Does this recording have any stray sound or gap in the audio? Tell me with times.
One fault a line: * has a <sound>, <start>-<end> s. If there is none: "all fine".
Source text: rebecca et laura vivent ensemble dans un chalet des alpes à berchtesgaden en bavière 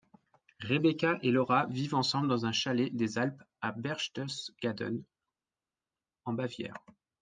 all fine